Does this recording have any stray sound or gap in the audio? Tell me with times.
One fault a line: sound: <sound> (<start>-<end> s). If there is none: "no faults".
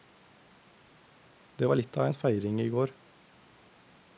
no faults